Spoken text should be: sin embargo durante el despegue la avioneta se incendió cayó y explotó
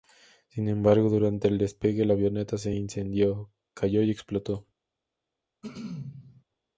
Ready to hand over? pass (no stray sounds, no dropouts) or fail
fail